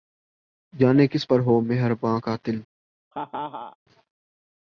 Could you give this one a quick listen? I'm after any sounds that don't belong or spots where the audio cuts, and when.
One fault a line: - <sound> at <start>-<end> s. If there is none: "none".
- laugh at 3.1-3.8 s